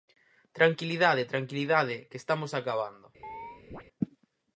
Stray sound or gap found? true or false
true